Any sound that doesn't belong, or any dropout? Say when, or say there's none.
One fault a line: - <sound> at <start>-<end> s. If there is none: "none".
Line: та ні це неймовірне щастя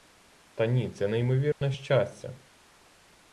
- dropout at 1.5-1.6 s